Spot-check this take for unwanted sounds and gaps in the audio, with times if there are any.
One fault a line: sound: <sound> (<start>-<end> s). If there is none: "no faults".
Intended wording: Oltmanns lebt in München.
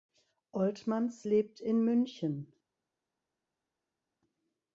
no faults